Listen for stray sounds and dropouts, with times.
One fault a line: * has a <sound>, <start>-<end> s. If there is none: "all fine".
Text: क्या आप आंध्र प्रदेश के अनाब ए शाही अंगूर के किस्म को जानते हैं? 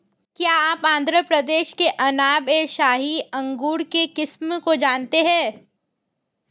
all fine